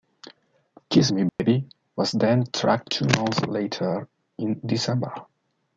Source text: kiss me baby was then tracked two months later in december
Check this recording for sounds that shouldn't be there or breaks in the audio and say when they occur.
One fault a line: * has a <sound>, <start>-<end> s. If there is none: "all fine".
* has a dropout, 1.3-1.4 s